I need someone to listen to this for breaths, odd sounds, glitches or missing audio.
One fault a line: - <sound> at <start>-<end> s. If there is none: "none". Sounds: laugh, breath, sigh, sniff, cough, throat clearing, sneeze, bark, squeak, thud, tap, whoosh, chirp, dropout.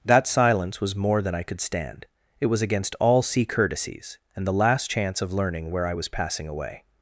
none